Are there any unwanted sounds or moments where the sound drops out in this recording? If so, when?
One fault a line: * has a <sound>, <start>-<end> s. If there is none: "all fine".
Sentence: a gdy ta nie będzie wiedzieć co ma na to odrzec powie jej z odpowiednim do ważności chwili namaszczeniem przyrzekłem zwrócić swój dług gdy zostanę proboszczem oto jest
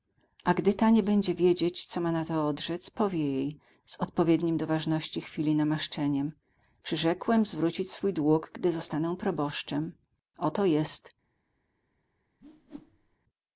* has a whoosh, 12.4-13.2 s